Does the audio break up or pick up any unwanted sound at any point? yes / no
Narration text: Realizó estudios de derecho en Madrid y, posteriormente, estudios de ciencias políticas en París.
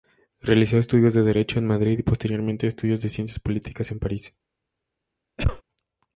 yes